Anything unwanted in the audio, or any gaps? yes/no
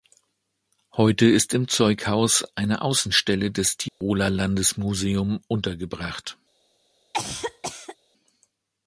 yes